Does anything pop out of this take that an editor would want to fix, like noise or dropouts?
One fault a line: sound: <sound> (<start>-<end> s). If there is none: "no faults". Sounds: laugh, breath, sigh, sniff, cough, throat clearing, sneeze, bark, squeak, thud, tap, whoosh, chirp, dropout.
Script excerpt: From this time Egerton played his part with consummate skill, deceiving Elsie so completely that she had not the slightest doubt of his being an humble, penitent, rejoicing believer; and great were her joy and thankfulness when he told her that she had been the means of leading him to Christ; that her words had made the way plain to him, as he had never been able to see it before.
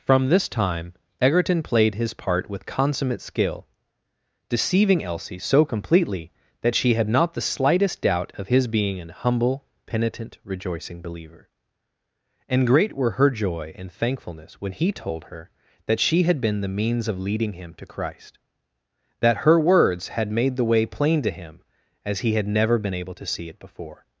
no faults